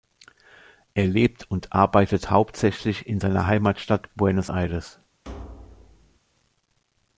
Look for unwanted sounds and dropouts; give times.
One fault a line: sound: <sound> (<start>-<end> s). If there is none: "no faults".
sound: thud (5.2-6.2 s)